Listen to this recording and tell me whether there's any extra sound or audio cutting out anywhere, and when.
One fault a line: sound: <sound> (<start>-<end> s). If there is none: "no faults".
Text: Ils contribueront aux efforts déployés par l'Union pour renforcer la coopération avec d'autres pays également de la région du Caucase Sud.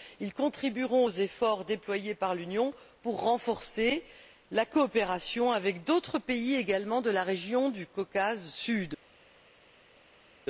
no faults